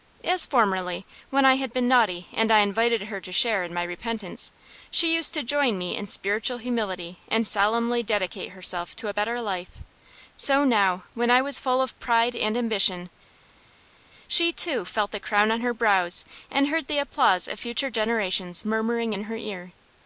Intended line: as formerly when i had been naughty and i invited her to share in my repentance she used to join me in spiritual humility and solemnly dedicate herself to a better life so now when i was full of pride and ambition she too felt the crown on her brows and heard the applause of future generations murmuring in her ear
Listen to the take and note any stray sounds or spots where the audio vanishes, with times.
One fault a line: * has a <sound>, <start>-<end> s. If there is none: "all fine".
all fine